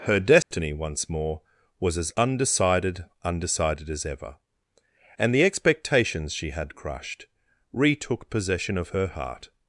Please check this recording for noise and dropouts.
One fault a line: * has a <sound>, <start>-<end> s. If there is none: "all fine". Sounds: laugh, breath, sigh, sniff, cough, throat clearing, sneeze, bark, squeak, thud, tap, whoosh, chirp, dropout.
* has a dropout, 0.4-0.5 s